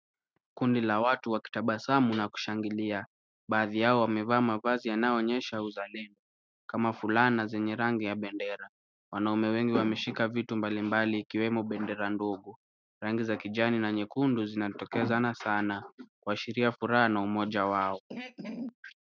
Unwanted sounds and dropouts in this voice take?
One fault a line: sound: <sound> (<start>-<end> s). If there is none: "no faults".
sound: throat clearing (18.1-18.8 s)